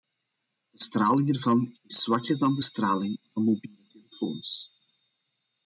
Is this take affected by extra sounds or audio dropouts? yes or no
no